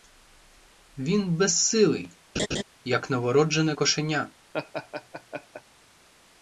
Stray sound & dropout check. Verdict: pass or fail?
fail